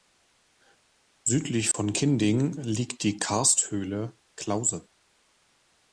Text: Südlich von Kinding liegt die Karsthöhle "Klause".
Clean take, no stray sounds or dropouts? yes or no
no